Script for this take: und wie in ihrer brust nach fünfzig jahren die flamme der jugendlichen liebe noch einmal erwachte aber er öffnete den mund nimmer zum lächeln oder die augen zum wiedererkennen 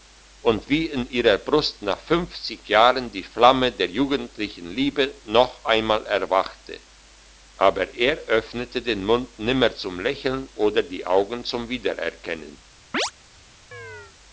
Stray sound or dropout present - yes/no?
yes